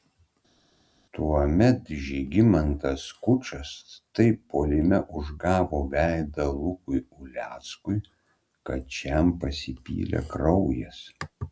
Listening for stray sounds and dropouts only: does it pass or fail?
pass